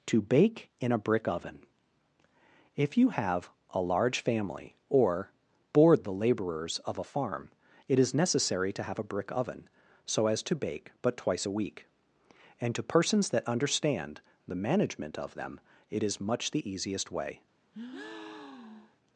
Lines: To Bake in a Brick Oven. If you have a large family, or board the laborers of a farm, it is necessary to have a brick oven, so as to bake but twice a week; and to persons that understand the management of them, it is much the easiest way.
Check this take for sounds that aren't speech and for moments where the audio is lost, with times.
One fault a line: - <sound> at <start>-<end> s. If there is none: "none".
- breath at 17.7-19.0 s